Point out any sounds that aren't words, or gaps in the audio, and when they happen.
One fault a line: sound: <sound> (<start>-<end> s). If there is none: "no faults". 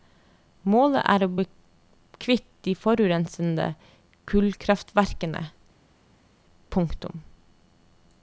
no faults